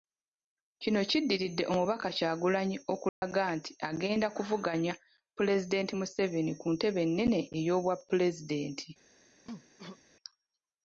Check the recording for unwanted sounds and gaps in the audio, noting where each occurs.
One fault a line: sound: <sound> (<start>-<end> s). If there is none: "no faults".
sound: dropout (3.1-3.2 s)
sound: cough (9.4-10.0 s)